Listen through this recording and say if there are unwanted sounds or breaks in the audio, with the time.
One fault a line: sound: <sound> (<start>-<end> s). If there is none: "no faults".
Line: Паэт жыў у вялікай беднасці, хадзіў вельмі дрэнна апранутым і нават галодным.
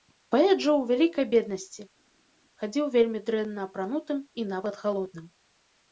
no faults